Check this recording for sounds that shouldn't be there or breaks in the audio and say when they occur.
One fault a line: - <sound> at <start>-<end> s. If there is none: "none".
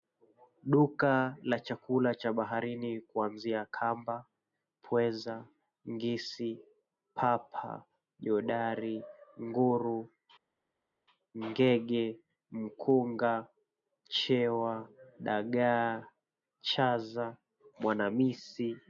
none